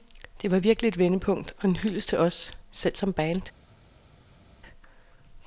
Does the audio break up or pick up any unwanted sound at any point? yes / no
no